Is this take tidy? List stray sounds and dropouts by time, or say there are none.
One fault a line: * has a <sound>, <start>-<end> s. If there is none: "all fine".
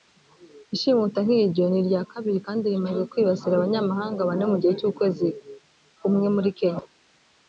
all fine